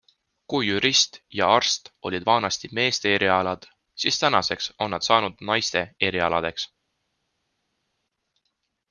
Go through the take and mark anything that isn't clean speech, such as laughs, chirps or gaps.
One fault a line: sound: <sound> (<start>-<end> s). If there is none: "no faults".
no faults